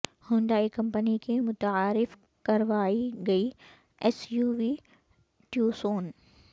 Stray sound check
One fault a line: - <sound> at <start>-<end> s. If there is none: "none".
none